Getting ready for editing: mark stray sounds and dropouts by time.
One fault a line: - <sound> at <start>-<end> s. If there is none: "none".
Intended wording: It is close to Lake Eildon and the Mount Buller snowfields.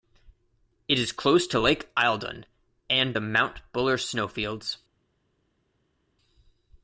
none